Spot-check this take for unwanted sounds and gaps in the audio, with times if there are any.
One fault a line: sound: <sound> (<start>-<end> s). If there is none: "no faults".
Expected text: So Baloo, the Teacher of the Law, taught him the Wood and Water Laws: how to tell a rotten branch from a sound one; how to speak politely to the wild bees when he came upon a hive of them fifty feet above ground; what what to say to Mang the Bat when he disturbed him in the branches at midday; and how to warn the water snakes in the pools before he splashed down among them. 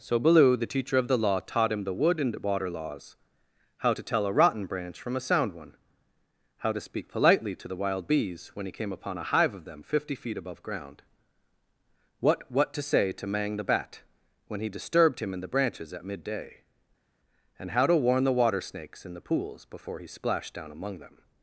no faults